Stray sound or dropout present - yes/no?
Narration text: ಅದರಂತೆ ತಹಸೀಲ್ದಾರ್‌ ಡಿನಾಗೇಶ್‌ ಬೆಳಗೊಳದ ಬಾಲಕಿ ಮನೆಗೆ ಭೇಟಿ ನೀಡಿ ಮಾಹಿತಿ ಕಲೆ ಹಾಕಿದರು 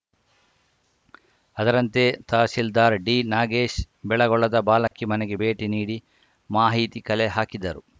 yes